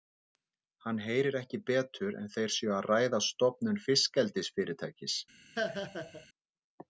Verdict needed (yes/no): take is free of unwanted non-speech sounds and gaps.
no